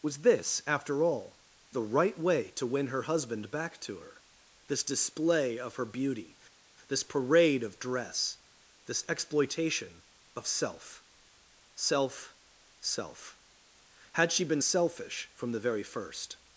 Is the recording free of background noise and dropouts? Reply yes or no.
yes